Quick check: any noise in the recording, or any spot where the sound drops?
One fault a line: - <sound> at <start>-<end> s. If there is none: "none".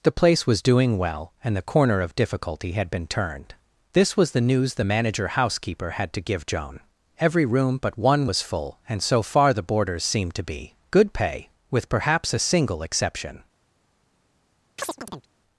- chirp at 14.8-15.3 s